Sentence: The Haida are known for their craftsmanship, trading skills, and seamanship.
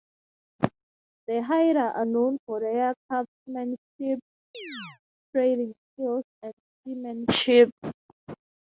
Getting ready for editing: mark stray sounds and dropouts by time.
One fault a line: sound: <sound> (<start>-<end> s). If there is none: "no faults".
sound: chirp (4.5-5.0 s)